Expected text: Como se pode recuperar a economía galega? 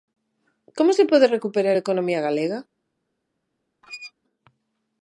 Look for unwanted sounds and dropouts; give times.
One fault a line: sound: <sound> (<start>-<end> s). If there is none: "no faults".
sound: squeak (3.8-4.1 s)